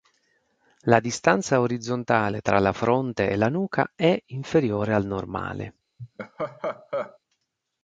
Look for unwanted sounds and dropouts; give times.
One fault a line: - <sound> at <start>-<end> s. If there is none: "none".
- laugh at 6.0-7.2 s